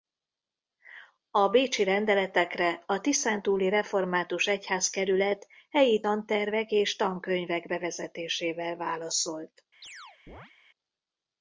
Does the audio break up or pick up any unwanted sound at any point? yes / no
yes